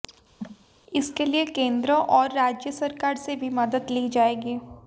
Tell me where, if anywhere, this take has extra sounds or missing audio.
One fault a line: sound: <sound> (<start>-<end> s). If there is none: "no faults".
sound: cough (0.4-0.7 s)